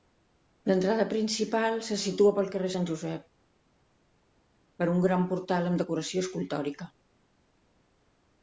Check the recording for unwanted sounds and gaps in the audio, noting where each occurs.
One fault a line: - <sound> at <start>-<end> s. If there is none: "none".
none